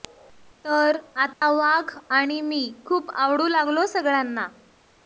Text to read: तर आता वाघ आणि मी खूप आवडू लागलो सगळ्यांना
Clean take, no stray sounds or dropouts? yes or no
no